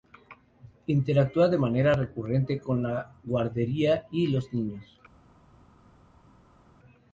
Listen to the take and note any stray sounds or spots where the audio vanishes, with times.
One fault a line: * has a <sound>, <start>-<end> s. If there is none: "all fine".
all fine